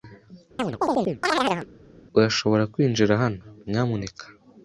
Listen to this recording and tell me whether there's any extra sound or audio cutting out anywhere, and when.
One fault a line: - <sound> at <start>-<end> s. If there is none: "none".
- chirp at 0.6-1.7 s